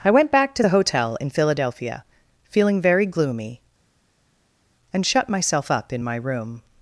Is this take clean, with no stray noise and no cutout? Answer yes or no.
yes